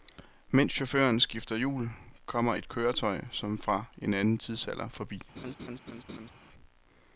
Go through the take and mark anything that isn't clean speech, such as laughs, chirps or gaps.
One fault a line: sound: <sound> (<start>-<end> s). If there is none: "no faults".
sound: laugh (5.4-6.3 s)